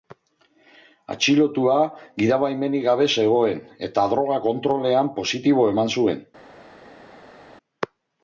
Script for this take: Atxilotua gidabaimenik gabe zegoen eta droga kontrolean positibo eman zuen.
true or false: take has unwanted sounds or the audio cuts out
false